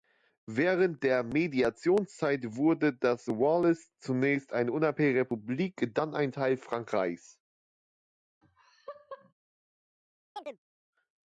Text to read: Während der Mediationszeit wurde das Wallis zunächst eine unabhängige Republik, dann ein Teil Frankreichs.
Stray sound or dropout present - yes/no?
yes